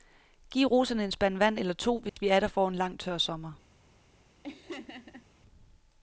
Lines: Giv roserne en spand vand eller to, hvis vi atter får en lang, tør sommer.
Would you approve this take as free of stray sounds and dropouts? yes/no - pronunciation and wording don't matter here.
no